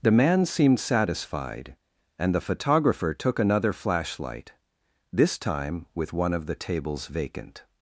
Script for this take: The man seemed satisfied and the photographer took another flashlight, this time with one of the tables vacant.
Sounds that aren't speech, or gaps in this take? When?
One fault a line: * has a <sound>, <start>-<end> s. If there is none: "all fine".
all fine